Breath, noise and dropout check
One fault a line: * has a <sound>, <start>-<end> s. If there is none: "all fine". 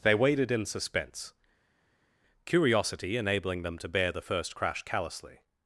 all fine